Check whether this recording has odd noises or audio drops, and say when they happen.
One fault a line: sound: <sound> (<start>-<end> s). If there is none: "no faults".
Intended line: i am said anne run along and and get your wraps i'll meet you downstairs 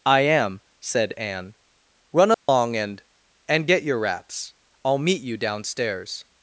sound: dropout (2.3-2.5 s)